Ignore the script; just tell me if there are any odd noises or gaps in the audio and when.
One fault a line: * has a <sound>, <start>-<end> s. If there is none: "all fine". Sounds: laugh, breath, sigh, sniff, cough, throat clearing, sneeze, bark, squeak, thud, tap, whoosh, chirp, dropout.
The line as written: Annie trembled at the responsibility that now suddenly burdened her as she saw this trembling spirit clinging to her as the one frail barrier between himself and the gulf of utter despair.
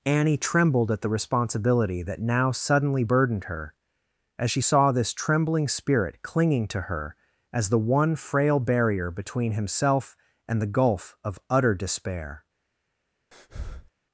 * has a breath, 13.3-13.9 s